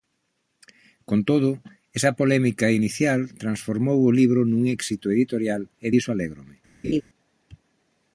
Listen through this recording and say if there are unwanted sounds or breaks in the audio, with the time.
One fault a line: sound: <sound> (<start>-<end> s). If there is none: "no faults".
sound: laugh (6.8-7.0 s)